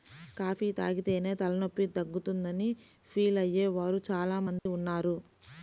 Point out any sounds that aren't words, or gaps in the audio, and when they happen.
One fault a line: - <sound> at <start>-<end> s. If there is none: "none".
- dropout at 4.6-4.7 s